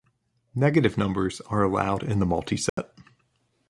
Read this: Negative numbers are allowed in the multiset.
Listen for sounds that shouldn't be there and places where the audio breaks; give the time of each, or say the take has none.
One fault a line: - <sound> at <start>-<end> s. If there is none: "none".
- dropout at 2.7-2.8 s